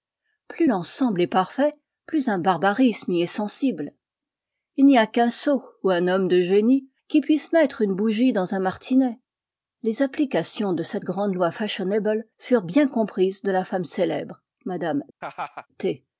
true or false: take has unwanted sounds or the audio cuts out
true